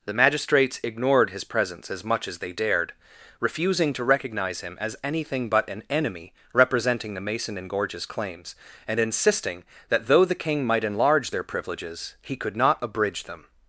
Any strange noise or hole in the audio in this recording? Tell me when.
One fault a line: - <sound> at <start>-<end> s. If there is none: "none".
none